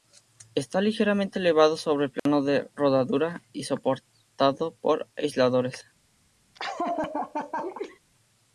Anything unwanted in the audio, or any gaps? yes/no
yes